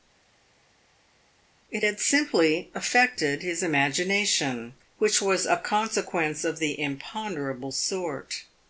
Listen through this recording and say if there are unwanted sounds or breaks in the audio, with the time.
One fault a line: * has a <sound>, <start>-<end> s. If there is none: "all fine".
all fine